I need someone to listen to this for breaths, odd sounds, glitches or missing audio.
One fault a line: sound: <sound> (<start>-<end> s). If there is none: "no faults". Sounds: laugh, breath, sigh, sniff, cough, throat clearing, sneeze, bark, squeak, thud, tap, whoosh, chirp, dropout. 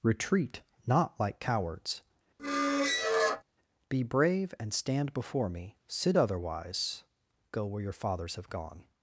sound: squeak (2.4-3.4 s)